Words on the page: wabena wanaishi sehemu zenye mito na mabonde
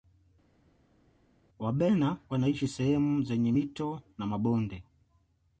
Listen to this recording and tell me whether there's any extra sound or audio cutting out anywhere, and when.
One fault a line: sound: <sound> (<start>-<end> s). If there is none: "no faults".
no faults